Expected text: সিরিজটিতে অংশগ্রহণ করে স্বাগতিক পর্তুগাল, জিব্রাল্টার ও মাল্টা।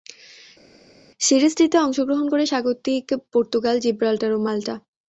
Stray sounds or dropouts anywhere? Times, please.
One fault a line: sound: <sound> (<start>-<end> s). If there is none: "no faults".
no faults